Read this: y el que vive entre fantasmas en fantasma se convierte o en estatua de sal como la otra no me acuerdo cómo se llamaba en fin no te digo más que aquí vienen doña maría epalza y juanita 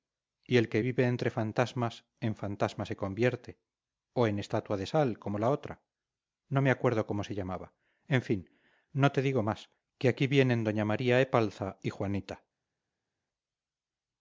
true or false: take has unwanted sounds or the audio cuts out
false